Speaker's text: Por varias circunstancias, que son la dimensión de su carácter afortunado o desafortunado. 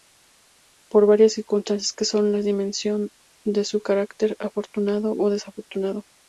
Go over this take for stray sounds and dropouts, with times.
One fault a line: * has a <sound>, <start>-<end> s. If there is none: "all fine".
all fine